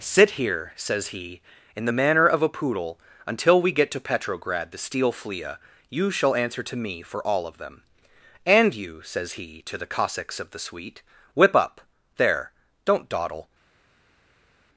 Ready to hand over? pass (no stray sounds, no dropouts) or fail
pass